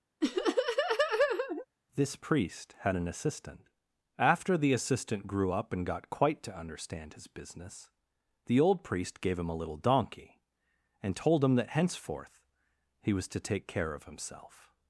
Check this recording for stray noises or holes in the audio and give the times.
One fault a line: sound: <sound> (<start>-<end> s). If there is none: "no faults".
sound: laugh (0.2-1.7 s)